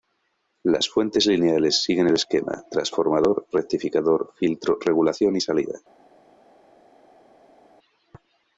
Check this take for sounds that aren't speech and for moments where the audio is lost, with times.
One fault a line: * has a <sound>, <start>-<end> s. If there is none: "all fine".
all fine